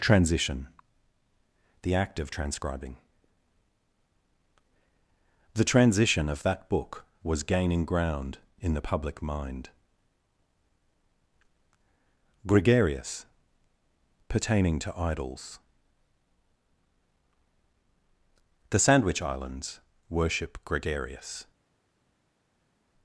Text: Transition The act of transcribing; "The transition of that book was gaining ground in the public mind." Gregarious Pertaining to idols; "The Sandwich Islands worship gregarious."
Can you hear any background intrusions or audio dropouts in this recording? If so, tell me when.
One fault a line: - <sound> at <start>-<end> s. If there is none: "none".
none